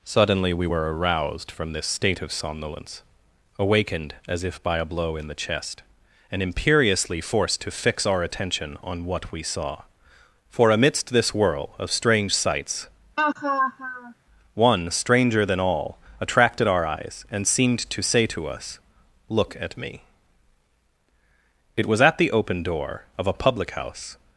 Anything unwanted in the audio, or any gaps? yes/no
yes